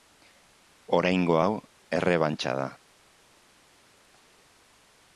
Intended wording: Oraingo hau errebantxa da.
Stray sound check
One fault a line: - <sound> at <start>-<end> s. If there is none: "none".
none